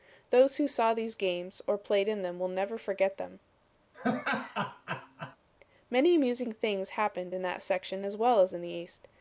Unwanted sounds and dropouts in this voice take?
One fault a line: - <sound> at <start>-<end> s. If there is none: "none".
- laugh at 3.9-5.4 s